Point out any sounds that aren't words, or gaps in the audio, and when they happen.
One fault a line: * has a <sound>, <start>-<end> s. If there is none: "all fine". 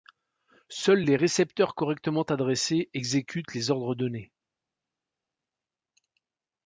all fine